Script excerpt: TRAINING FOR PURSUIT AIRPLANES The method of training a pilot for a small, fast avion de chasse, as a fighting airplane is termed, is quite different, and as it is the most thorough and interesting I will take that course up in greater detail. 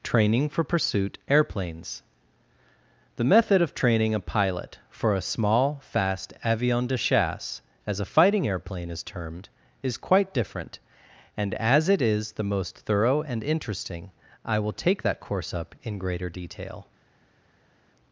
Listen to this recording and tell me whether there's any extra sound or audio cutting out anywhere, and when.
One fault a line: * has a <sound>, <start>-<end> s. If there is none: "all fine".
all fine